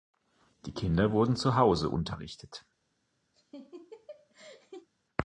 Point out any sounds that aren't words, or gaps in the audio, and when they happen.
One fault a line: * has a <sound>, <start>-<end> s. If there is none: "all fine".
* has a laugh, 3.3-4.9 s